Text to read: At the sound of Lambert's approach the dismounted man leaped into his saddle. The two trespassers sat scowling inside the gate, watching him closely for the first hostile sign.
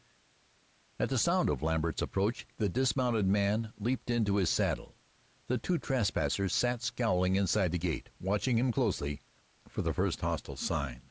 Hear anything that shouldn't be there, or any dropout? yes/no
no